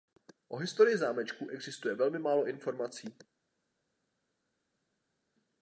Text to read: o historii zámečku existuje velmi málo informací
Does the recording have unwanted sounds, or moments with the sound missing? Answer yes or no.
no